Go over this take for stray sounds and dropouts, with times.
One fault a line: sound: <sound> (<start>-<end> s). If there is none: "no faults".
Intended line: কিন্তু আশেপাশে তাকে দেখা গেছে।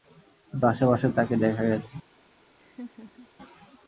sound: laugh (2.6-3.3 s)